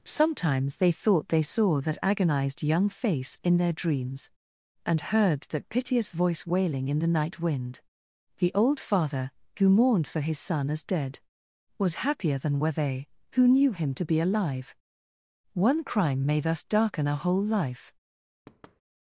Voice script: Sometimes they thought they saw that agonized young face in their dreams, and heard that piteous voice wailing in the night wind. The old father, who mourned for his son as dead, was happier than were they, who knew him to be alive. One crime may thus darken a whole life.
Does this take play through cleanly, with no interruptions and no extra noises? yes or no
no